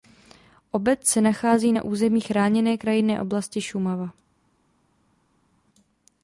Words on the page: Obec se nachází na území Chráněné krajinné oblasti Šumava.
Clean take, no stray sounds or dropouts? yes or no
yes